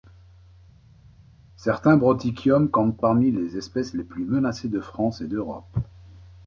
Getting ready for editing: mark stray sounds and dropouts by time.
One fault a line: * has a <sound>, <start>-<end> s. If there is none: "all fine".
all fine